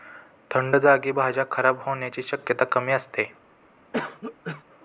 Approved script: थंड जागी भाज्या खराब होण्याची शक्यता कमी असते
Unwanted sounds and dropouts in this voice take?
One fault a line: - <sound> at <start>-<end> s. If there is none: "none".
- cough at 3.9-4.6 s